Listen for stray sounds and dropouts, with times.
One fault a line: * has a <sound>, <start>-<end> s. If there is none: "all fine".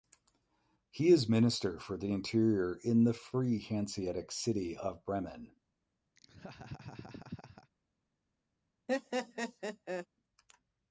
* has a laugh, 6.2-7.7 s
* has a laugh, 8.9-10.1 s